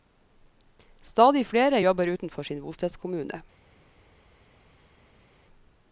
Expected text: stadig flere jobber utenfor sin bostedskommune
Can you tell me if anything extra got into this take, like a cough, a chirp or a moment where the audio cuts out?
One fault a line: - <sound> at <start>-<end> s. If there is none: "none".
none